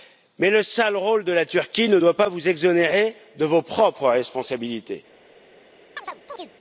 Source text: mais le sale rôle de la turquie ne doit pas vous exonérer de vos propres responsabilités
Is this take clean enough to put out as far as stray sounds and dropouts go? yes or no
no